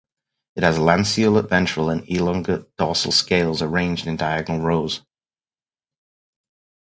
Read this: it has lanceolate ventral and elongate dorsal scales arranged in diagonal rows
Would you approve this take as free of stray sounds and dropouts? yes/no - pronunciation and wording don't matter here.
yes